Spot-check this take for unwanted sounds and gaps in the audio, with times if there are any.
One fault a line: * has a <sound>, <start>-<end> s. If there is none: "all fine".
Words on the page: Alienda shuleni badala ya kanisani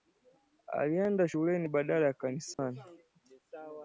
* has a dropout, 2.5-2.6 s